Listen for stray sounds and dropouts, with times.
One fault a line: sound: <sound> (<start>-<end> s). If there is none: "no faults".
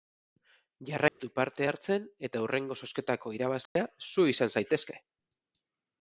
sound: dropout (1.1-1.2 s)
sound: dropout (3.7-3.8 s)